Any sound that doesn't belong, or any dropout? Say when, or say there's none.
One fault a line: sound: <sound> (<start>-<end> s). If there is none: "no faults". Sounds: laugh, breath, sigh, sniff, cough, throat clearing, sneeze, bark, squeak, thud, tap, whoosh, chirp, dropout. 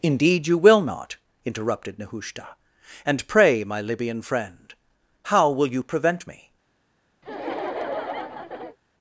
sound: laugh (7.2-8.8 s)